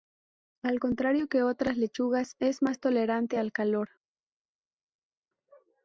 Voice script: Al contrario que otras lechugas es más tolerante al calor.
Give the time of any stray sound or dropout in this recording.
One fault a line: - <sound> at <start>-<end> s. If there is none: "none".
none